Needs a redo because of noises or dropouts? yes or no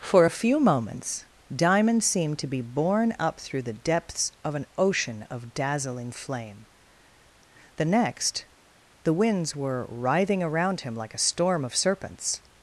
no